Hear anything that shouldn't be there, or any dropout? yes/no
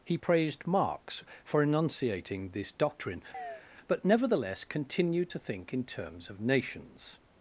yes